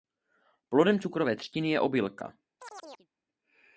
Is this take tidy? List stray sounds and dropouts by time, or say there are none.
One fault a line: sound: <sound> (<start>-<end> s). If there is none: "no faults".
sound: chirp (2.6-3.1 s)